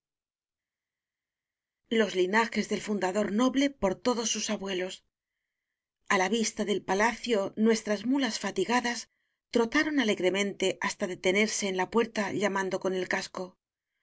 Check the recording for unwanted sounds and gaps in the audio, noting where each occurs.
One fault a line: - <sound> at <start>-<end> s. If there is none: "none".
none